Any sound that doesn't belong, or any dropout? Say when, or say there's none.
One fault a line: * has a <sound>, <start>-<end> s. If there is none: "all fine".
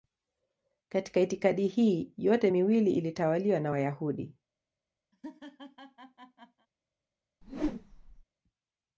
* has a laugh, 5.1-6.7 s
* has a whoosh, 7.4-8.2 s